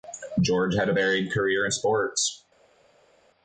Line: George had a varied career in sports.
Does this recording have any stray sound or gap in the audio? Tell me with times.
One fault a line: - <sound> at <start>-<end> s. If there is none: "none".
none